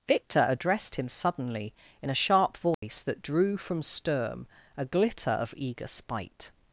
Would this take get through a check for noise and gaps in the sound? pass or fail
fail